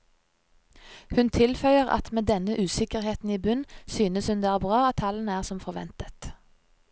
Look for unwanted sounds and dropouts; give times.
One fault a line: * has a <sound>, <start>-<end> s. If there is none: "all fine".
all fine